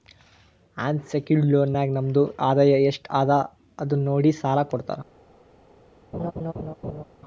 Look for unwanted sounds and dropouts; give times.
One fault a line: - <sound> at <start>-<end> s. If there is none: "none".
- laugh at 6.1-7.0 s